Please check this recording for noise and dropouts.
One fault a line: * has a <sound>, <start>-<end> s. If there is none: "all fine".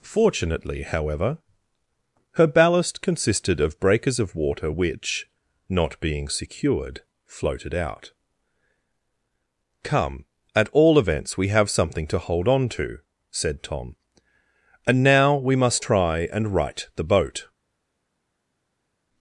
all fine